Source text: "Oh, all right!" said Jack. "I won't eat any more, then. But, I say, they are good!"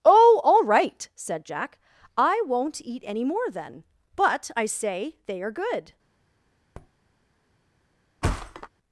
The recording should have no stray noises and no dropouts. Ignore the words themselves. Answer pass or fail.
fail